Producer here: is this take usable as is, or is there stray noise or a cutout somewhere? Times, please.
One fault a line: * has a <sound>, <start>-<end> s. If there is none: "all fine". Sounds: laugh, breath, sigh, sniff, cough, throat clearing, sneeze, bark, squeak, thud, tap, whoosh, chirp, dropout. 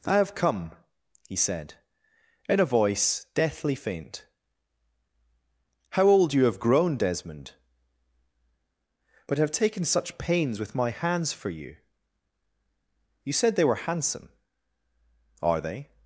all fine